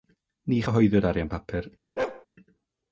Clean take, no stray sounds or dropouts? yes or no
no